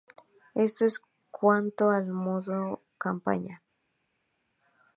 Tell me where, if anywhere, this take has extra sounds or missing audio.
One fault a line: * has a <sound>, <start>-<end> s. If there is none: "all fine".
all fine